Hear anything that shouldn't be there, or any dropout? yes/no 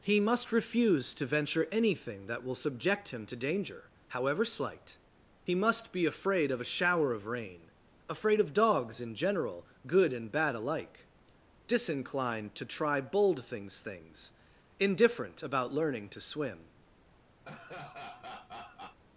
yes